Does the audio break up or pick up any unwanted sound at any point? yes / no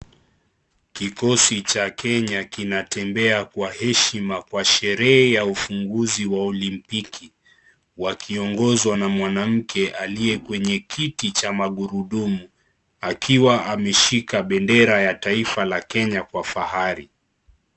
no